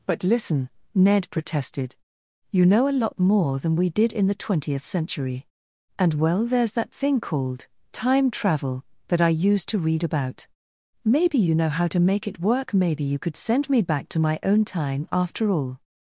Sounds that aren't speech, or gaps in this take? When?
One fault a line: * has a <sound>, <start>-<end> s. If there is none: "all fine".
all fine